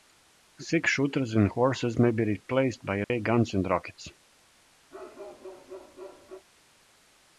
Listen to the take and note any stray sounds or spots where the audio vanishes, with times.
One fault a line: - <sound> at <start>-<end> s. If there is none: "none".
- dropout at 3.0-3.1 s
- bark at 4.9-6.5 s